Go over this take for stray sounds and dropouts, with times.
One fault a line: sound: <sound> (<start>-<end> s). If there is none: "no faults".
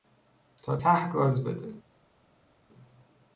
no faults